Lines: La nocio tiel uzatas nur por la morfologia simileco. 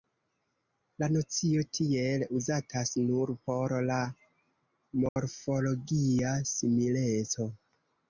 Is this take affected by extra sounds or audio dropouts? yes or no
yes